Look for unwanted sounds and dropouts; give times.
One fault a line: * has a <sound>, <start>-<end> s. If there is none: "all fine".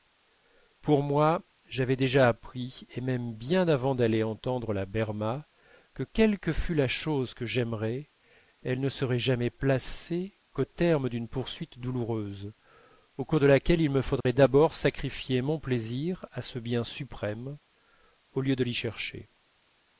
* has a dropout, 14.2-14.3 s